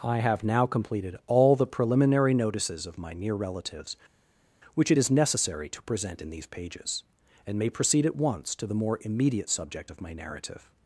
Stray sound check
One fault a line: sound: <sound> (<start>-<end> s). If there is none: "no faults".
no faults